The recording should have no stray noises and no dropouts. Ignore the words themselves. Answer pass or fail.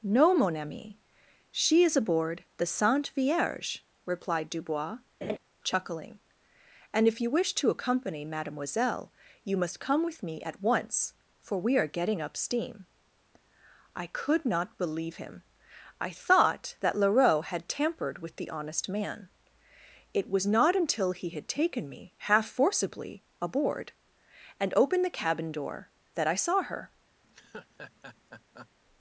fail